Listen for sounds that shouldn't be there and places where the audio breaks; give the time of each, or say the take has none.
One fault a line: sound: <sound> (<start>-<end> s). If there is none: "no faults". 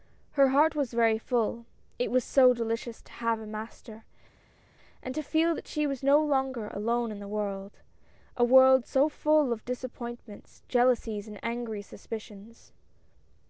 no faults